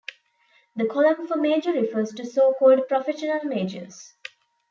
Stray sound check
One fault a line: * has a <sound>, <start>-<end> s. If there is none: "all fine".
all fine